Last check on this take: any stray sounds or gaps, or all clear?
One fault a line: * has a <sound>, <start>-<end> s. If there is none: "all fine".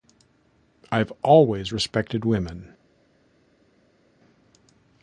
all fine